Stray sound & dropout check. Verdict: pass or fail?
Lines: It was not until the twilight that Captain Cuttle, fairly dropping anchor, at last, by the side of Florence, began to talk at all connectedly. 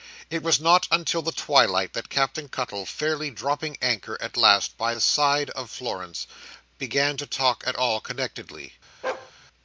fail